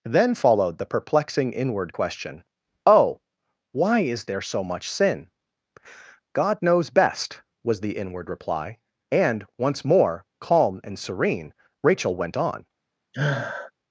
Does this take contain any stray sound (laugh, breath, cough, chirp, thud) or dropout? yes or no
yes